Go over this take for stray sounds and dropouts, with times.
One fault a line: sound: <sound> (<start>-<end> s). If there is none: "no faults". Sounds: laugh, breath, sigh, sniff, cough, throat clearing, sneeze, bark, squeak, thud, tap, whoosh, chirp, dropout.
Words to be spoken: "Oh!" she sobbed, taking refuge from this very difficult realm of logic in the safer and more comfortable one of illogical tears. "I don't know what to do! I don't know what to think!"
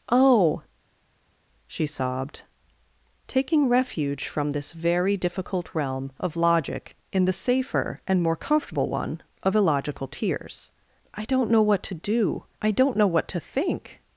no faults